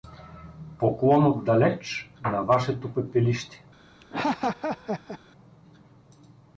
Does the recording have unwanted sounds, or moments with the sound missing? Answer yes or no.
yes